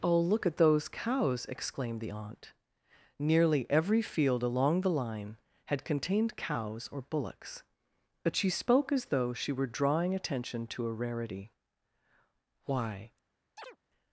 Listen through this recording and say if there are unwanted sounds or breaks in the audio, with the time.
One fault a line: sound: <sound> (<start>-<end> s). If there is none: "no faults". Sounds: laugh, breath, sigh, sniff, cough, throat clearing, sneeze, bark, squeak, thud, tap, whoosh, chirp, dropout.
sound: chirp (13.6-13.8 s)